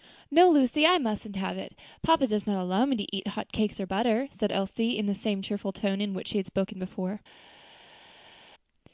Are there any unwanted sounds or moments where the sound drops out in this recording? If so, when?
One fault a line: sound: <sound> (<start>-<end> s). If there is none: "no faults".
no faults